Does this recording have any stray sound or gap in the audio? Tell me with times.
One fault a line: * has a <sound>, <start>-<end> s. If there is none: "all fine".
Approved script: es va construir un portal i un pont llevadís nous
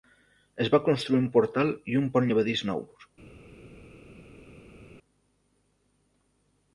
all fine